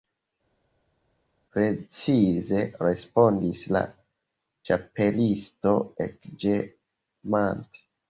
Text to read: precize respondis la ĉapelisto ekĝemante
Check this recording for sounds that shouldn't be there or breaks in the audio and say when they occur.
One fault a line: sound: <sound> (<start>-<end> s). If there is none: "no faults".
no faults